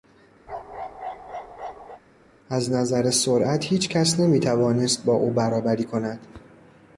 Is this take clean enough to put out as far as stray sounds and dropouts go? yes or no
no